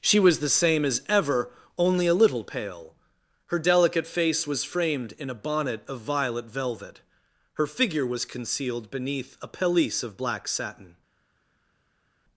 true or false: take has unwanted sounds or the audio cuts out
false